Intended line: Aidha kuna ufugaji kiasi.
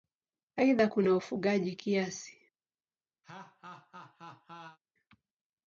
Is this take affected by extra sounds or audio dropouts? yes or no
yes